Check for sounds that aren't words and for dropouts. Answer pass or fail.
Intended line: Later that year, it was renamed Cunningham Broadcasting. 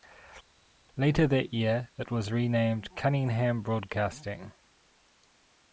pass